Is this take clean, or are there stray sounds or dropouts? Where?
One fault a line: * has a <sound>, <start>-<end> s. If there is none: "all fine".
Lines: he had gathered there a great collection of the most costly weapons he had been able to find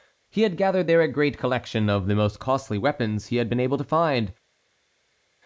all fine